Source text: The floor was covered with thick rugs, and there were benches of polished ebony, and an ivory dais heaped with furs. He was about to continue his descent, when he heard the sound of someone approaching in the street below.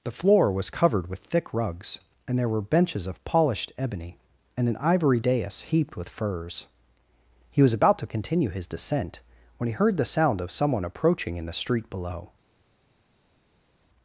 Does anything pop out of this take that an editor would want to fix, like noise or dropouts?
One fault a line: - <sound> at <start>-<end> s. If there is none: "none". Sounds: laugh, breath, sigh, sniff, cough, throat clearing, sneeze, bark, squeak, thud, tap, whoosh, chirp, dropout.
none